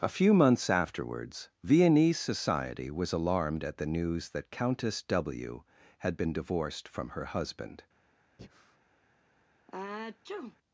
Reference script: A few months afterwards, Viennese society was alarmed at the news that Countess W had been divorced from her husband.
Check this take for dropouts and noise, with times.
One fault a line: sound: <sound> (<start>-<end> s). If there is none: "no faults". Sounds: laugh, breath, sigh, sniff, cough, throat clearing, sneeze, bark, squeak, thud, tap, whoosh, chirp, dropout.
sound: breath (8.4-8.8 s)
sound: sneeze (9.7-10.6 s)